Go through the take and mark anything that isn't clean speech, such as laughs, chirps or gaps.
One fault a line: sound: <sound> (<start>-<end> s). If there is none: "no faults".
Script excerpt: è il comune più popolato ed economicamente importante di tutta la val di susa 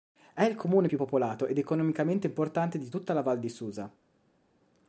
no faults